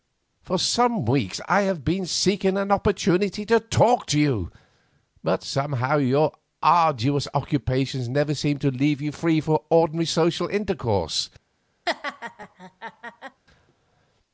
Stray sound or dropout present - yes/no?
yes